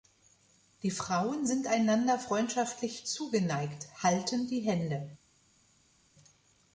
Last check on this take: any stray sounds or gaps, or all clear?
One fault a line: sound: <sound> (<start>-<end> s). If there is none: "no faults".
no faults